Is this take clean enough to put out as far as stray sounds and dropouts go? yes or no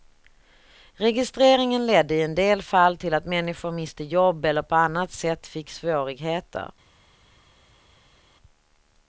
yes